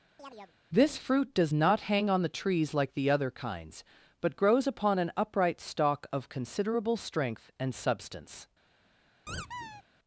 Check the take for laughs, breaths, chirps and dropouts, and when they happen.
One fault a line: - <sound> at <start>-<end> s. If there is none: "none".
- chirp at 0.2-0.5 s
- squeak at 9.3-9.8 s